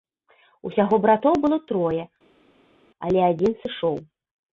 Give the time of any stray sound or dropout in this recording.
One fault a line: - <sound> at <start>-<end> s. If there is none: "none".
none